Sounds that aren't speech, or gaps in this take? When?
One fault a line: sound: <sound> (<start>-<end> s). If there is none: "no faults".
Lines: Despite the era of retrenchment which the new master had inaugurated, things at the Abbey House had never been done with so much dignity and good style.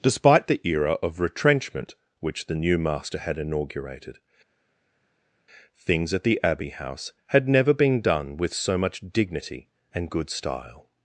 no faults